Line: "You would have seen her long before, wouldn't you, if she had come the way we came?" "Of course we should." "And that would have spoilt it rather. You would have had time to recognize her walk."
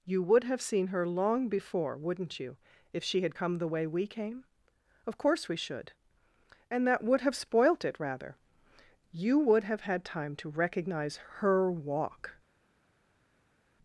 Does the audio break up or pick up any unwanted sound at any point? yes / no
no